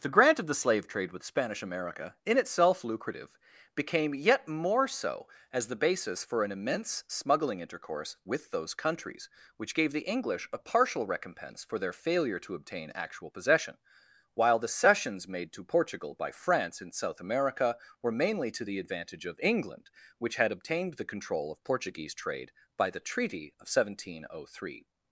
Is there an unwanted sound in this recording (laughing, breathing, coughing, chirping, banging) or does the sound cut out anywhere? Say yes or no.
no